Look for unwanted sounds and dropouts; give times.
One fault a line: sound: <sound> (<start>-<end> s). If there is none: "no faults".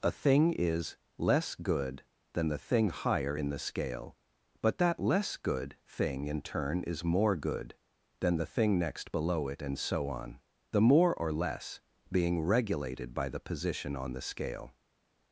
no faults